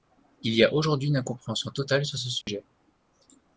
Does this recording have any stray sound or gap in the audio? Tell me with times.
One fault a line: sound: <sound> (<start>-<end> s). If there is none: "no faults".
sound: dropout (2.4-2.5 s)